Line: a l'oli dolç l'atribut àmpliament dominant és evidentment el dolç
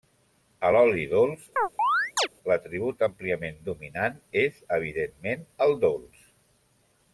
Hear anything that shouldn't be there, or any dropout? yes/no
yes